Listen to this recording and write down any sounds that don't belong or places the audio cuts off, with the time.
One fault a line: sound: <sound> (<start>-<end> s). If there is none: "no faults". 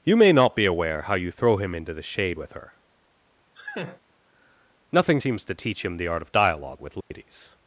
sound: laugh (3.5-4.0 s)
sound: dropout (7.0-7.1 s)